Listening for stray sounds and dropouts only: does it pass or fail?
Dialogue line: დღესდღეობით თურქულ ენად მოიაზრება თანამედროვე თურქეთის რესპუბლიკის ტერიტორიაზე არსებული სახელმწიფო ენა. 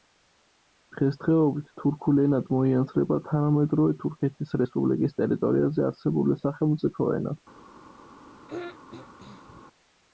fail